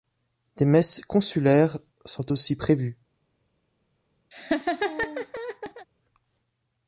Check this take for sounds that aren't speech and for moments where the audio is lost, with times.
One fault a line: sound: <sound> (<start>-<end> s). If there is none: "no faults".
sound: laugh (4.3-5.9 s)